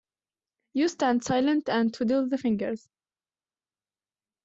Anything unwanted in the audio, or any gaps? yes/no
no